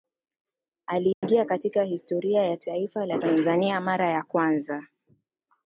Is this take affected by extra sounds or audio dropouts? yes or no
yes